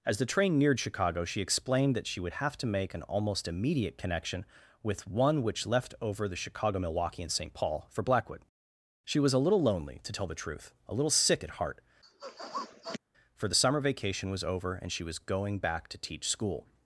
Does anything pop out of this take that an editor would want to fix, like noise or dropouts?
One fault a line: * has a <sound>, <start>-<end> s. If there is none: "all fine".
* has a sniff, 12.0-13.0 s